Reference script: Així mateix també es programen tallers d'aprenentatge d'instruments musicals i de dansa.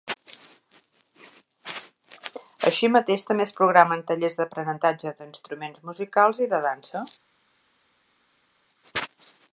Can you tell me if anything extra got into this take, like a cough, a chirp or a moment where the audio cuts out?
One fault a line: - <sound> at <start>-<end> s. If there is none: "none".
none